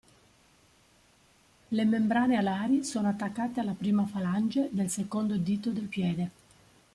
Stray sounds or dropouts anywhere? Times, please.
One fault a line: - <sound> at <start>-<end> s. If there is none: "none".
none